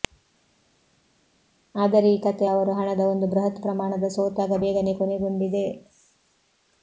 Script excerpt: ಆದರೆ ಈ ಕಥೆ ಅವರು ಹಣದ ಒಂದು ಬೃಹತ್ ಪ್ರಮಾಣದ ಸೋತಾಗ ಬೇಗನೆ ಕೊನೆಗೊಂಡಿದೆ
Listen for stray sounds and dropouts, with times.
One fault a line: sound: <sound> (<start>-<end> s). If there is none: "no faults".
no faults